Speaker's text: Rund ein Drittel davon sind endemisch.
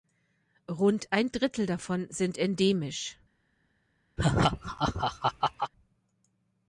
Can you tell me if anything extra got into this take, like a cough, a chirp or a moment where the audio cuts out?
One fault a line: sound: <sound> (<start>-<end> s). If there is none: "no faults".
sound: laugh (4.2-5.7 s)